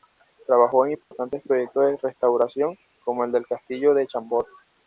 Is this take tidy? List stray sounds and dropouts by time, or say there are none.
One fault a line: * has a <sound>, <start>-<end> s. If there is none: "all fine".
* has a dropout, 1.0-1.1 s